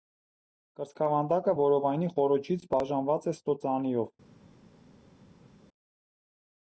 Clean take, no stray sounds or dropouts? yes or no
yes